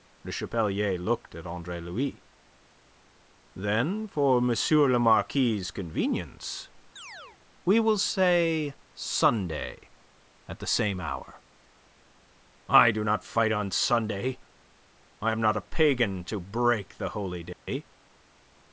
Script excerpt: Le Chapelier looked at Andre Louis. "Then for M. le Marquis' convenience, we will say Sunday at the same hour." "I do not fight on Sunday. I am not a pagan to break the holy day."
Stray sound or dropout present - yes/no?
yes